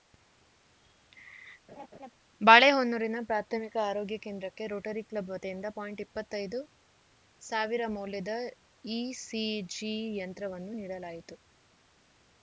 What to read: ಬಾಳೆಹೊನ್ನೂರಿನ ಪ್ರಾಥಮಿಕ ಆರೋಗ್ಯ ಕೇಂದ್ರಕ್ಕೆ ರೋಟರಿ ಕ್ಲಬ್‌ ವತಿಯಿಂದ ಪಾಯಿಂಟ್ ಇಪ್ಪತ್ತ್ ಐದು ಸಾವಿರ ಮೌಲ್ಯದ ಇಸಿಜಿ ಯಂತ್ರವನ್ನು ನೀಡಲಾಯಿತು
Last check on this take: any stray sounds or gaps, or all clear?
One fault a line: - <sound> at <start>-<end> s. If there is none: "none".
- laugh at 1.7-2.1 s